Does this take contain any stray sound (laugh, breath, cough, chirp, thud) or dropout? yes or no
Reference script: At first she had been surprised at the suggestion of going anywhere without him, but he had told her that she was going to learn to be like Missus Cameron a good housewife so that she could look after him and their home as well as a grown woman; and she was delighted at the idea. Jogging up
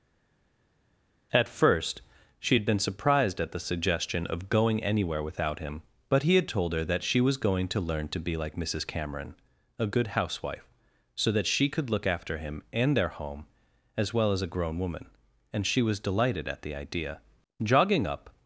no